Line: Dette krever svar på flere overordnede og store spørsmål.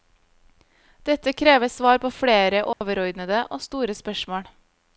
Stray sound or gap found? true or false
true